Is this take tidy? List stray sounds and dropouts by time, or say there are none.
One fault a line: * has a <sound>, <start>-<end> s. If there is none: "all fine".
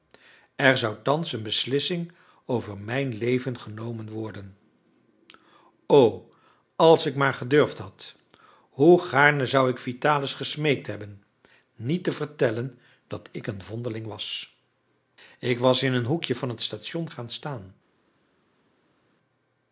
all fine